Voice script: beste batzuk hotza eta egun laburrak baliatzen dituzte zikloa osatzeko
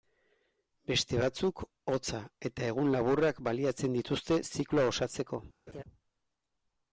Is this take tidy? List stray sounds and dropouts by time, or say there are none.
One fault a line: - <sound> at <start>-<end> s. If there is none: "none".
- laugh at 5.7-5.8 s